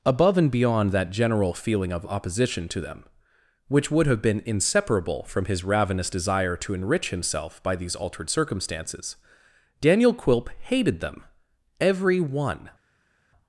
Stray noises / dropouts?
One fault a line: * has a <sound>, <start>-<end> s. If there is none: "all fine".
all fine